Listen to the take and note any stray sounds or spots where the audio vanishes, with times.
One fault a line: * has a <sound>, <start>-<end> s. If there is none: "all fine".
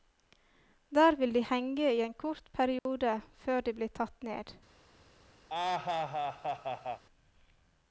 * has a dropout, 2.8-2.9 s
* has a laugh, 5.5-7.0 s